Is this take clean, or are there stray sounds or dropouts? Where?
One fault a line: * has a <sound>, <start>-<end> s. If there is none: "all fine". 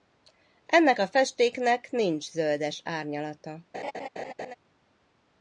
* has a laugh, 3.7-4.6 s